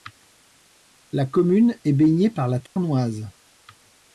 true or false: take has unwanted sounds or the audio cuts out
true